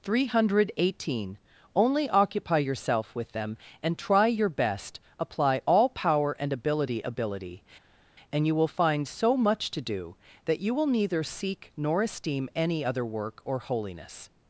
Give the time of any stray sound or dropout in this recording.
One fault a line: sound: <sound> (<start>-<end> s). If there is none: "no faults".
no faults